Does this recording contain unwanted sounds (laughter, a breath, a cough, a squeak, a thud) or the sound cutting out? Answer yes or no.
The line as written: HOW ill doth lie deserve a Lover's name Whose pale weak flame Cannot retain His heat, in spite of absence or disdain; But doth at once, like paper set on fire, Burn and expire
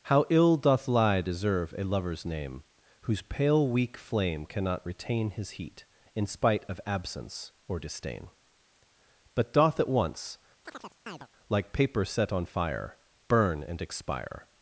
yes